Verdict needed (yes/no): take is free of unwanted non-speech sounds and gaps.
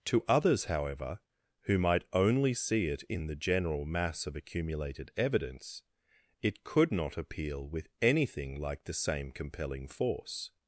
yes